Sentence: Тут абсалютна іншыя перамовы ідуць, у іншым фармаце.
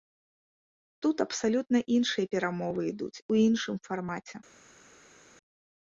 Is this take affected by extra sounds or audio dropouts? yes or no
no